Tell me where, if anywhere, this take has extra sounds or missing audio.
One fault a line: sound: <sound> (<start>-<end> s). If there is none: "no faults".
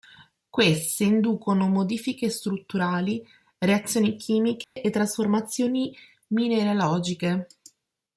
sound: dropout (4.6-4.8 s)